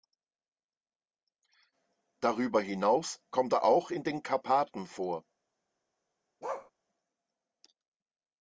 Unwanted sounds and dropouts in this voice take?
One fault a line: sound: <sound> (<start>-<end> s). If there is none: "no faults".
sound: bark (6.4-6.7 s)